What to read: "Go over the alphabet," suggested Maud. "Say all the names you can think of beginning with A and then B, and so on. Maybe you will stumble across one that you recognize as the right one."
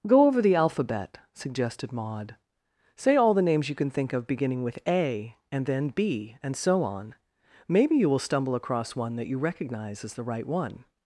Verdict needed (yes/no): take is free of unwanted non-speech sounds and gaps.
yes